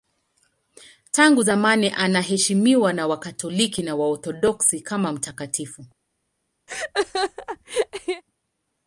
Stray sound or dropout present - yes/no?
yes